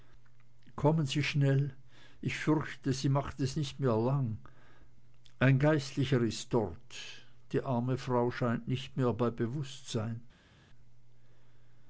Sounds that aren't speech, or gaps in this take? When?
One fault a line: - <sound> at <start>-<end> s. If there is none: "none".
none